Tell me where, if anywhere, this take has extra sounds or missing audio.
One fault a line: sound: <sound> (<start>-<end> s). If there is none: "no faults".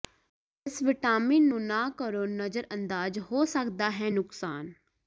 no faults